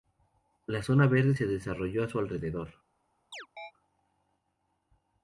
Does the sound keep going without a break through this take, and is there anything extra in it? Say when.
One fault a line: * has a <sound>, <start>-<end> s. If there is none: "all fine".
* has a chirp, 3.3-3.7 s